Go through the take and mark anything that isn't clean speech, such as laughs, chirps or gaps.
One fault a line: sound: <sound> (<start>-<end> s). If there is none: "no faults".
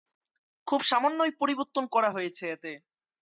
no faults